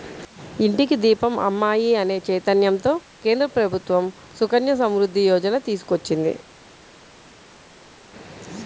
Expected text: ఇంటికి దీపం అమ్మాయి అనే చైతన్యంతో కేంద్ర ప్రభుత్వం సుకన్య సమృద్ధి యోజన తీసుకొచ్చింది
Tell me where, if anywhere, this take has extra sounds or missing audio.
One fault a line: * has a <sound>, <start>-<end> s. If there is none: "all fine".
all fine